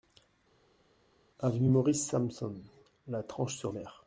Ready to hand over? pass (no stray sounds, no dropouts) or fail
pass